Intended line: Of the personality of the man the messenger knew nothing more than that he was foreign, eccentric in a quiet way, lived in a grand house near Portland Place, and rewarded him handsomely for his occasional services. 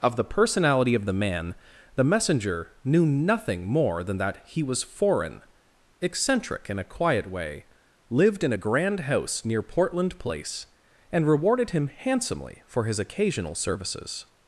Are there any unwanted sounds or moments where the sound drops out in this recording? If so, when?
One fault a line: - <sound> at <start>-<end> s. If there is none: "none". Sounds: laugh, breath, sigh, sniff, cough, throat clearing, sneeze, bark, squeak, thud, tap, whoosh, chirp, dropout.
none